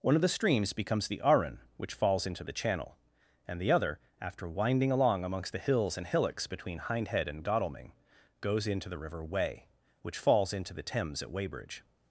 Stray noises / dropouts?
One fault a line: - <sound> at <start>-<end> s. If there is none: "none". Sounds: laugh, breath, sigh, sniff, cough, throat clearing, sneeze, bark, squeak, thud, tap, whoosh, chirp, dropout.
none